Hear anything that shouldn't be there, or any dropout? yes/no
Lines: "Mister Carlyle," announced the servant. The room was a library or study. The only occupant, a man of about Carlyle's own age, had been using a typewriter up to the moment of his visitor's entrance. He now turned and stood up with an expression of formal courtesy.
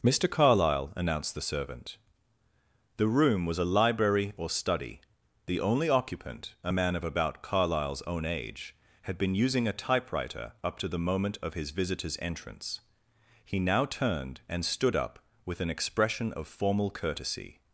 no